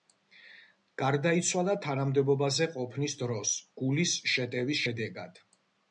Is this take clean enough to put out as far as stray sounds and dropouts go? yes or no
yes